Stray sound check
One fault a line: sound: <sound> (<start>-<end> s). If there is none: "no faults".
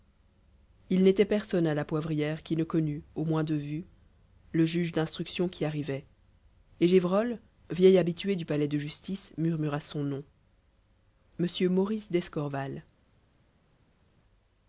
no faults